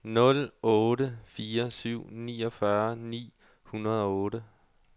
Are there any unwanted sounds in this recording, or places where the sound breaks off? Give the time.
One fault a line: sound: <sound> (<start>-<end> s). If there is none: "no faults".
no faults